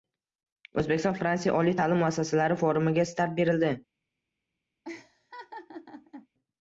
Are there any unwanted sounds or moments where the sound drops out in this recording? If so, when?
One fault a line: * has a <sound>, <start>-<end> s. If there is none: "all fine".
* has a laugh, 4.8-6.3 s